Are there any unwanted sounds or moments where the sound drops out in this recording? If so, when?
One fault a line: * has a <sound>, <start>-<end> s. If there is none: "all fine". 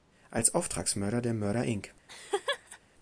* has a laugh, 2.1-2.8 s